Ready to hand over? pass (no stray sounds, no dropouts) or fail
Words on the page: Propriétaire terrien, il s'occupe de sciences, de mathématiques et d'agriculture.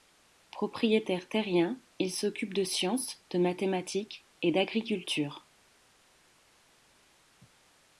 pass